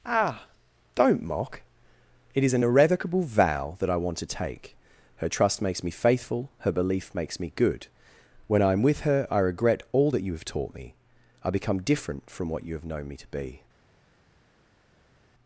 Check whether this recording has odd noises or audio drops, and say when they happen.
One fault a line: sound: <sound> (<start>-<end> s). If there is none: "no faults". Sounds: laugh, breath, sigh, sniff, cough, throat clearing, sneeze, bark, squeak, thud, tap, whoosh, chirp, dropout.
no faults